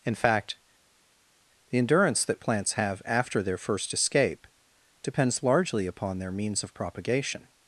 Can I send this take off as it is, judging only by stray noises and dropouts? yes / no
yes